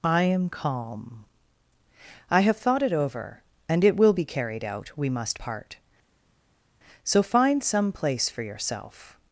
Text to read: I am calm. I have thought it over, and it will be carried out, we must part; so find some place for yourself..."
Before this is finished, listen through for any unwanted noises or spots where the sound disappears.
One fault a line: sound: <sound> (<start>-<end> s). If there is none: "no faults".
no faults